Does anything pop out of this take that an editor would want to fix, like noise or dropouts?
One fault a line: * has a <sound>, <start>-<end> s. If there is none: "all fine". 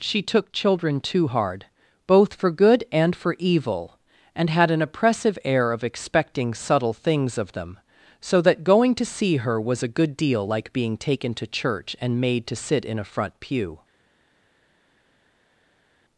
all fine